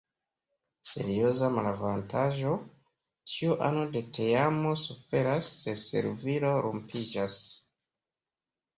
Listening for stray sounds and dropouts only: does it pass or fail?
pass